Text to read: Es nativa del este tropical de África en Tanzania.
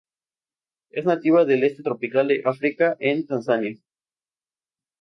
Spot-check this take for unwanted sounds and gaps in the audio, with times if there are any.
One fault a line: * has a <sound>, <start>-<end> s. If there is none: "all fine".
all fine